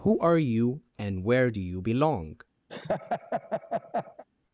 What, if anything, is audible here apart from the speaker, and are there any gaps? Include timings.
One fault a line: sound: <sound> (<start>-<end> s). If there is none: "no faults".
sound: laugh (2.7-4.2 s)